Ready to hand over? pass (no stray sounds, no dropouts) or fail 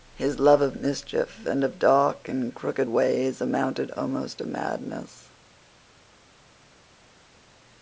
pass